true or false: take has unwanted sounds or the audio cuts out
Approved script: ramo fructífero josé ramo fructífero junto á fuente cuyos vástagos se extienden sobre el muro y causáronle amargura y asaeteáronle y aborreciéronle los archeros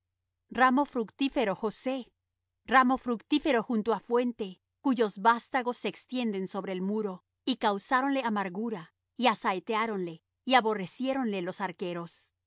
false